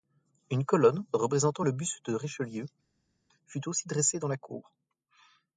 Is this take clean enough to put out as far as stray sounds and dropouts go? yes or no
yes